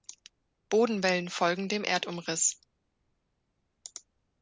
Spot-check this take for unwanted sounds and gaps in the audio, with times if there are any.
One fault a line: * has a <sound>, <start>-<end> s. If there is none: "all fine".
all fine